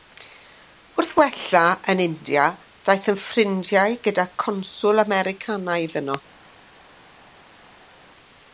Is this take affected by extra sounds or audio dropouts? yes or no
no